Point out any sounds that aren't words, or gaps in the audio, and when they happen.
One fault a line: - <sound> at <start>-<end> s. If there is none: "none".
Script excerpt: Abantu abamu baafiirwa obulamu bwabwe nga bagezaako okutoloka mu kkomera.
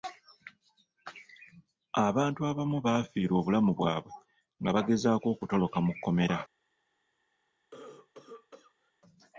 - cough at 7.7-8.9 s